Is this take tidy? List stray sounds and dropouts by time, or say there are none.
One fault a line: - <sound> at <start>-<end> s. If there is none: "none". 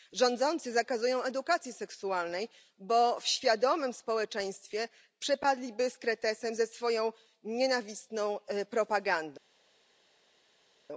none